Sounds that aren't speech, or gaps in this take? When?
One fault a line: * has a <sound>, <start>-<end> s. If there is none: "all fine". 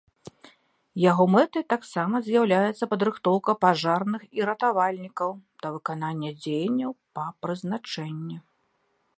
all fine